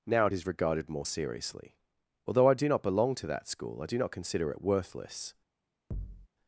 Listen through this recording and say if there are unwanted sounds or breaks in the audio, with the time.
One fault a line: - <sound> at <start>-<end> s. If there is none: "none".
- thud at 5.9-6.3 s